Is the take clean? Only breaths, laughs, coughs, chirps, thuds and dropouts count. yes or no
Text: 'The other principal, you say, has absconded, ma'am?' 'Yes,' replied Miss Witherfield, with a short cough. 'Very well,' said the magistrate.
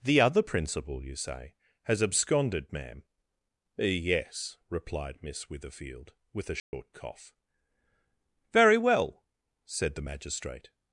no